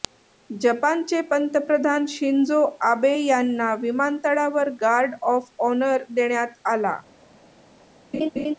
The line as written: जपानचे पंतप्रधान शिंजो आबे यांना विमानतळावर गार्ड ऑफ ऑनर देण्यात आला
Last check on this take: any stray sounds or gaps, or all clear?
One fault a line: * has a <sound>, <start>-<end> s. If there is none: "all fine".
* has a laugh, 8.1-8.5 s